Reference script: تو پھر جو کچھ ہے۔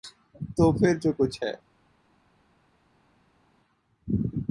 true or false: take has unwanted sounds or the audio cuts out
false